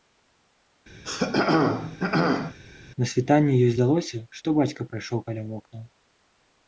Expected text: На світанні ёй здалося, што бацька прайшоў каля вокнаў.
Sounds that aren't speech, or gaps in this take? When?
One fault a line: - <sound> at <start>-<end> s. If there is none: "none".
- throat clearing at 1.0-2.6 s